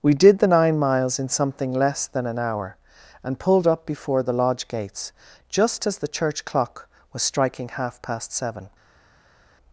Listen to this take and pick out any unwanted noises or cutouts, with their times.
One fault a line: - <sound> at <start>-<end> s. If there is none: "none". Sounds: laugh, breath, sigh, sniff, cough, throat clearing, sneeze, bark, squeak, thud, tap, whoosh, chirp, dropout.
none